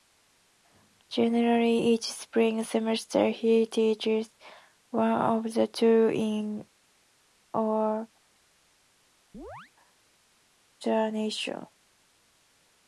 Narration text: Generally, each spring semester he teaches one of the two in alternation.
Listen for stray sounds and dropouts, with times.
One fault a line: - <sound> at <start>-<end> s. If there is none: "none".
- chirp at 9.3-9.7 s